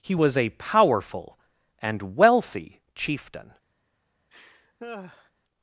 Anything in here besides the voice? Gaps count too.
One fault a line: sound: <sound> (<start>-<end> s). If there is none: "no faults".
sound: laugh (4.3-5.3 s)